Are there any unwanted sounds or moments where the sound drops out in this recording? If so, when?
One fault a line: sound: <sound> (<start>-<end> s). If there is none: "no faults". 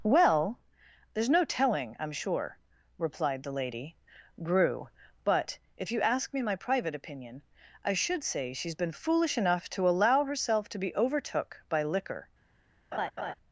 sound: laugh (12.9-13.3 s)